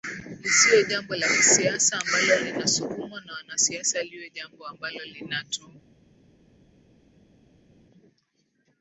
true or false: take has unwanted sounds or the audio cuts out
false